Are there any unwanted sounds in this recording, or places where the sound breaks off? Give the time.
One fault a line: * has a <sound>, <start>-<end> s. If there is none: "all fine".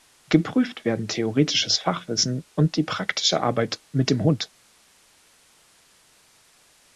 all fine